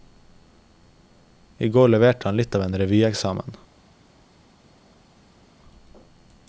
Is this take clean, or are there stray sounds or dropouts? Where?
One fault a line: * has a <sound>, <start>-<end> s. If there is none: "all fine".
all fine